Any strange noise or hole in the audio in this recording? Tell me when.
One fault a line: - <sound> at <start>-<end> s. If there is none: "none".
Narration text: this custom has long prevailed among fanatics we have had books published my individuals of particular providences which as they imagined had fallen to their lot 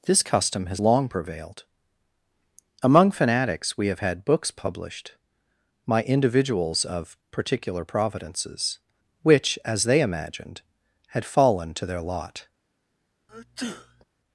- sneeze at 13.3-14.0 s